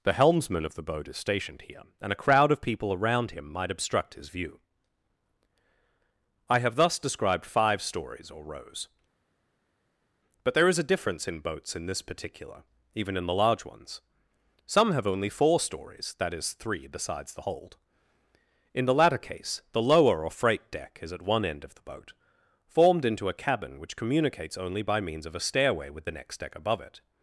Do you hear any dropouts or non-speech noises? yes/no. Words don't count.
no